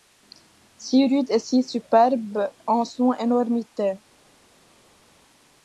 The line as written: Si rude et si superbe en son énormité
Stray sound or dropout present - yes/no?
no